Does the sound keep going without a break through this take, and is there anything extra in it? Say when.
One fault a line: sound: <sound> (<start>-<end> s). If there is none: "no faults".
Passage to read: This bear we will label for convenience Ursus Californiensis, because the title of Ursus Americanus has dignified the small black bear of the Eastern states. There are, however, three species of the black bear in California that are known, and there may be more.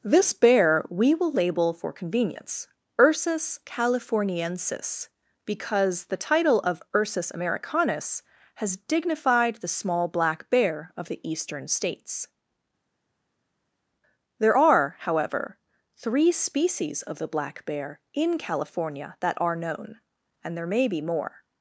no faults